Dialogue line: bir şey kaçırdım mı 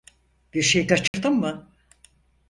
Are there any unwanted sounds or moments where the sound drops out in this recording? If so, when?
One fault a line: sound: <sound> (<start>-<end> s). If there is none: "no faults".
sound: dropout (1.1-1.1 s)